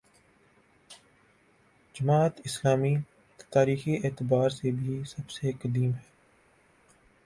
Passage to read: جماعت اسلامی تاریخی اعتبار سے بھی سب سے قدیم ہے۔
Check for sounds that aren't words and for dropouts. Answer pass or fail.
pass